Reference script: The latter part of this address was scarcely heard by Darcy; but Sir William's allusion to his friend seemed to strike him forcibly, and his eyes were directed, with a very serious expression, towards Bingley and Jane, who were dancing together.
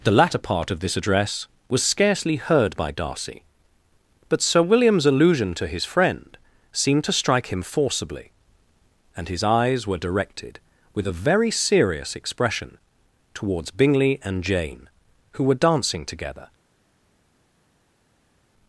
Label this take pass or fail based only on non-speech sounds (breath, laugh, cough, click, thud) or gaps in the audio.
pass